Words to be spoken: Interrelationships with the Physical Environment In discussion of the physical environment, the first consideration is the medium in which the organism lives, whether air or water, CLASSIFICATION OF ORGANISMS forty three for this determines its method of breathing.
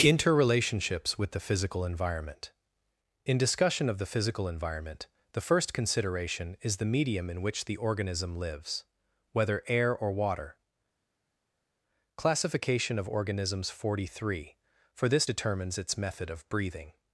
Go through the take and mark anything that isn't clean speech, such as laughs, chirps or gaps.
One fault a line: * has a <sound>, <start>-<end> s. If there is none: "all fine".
all fine